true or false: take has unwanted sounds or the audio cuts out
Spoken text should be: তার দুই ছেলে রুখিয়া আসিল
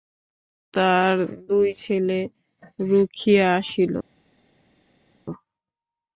false